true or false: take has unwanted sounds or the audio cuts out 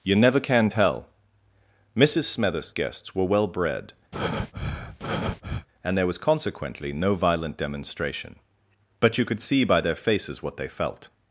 true